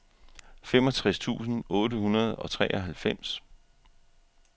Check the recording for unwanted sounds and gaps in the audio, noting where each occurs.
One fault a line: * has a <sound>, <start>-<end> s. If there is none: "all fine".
all fine